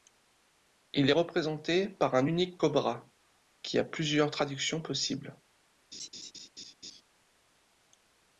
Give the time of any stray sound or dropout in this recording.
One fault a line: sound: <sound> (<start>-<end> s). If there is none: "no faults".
sound: laugh (5.9-7.0 s)